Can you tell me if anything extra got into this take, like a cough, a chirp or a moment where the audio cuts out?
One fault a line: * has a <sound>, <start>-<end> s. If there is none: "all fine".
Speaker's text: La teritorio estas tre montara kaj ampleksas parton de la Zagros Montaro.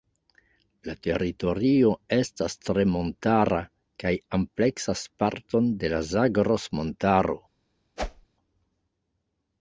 * has a whoosh, 8.0-8.3 s